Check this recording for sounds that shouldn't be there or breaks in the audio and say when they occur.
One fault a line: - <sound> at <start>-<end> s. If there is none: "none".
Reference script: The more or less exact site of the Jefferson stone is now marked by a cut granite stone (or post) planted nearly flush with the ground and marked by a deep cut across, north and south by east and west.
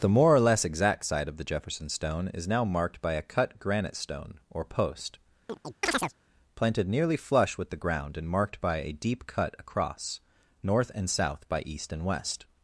- chirp at 5.5-6.1 s